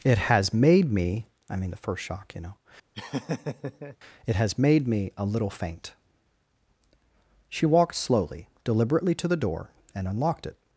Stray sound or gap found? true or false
true